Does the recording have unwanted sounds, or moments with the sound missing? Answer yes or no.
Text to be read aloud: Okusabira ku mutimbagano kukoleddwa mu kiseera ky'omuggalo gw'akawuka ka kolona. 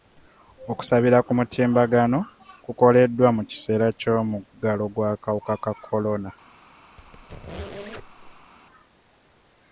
yes